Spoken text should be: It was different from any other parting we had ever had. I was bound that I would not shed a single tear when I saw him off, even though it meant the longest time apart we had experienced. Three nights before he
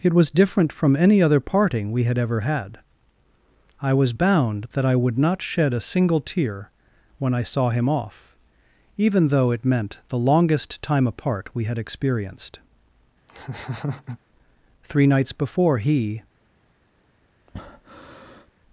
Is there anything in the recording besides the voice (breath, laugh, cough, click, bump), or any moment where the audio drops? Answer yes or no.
yes